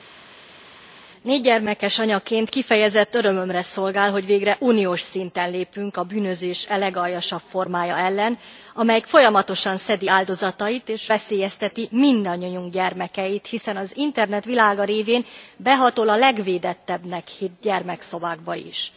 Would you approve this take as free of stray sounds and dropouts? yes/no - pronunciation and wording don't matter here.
yes